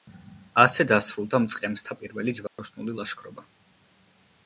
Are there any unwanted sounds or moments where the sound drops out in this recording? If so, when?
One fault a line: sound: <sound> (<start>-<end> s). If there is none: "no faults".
sound: dropout (2.5-2.6 s)